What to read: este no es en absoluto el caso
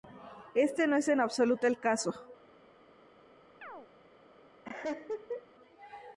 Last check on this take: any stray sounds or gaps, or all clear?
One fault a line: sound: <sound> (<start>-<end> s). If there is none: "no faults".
sound: chirp (3.6-3.9 s)
sound: laugh (4.6-5.5 s)